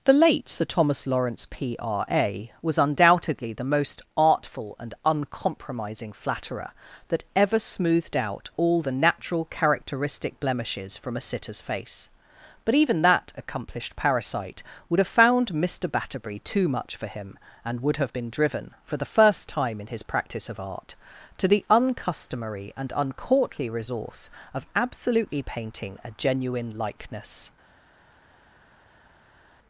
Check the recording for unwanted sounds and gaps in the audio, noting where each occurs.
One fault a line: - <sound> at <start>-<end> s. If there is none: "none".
none